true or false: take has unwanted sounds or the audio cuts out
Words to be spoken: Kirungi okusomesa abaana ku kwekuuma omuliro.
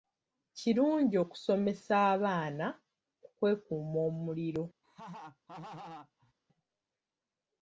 true